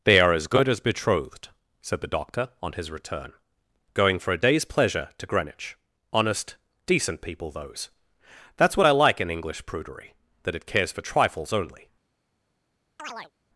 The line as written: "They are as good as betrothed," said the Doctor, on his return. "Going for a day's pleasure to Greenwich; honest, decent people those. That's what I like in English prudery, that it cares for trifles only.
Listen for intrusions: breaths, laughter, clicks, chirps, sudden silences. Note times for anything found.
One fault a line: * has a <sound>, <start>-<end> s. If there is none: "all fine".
* has a chirp, 13.0-13.3 s